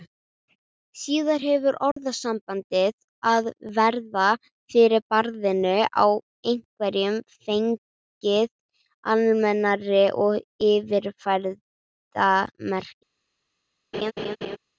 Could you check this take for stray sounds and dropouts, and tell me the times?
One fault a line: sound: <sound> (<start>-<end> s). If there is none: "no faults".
sound: dropout (1.9-2.0 s)
sound: laugh (13.9-14.6 s)